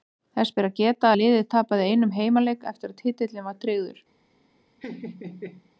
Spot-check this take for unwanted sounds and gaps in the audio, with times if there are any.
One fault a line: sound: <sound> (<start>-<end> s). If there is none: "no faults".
sound: laugh (4.8-5.7 s)